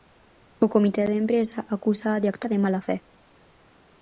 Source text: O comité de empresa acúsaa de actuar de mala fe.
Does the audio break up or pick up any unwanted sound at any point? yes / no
no